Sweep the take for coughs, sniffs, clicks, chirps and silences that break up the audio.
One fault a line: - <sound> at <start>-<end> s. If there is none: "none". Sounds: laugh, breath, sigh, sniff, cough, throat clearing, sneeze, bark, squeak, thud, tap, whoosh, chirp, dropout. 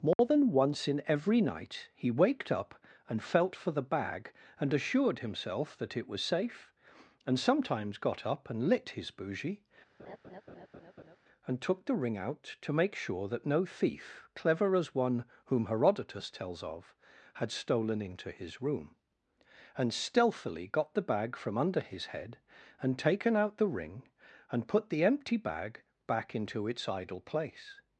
- dropout at 0.1-0.2 s
- laugh at 10.0-11.2 s